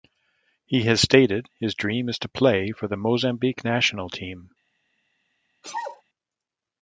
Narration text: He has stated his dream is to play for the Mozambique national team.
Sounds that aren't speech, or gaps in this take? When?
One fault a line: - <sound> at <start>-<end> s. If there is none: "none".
- sneeze at 5.6-6.0 s